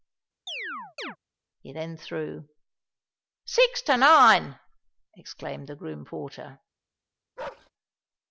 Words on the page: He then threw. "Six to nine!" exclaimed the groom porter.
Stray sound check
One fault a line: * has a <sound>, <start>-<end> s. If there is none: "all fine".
* has a chirp, 0.5-1.2 s
* has a bark, 7.4-7.7 s